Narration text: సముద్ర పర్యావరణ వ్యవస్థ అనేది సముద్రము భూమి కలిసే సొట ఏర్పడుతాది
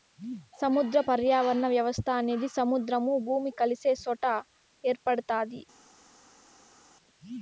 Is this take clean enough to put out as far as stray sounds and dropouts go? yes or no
yes